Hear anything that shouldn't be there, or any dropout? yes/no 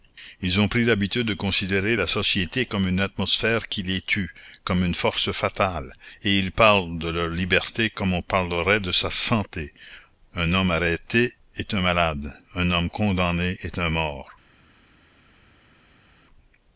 no